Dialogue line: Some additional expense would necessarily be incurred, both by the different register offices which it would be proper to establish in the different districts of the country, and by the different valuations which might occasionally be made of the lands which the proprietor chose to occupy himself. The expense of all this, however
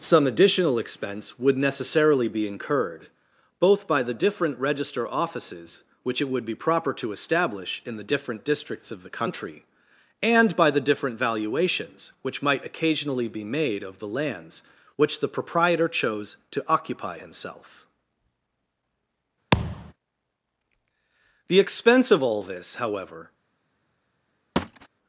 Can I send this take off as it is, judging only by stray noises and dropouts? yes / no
no